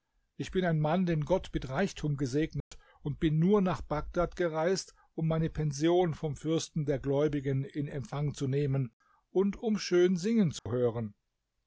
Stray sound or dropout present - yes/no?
yes